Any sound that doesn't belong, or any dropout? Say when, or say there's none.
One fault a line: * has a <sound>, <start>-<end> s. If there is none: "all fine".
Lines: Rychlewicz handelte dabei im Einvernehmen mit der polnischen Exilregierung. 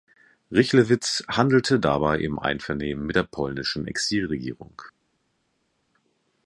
all fine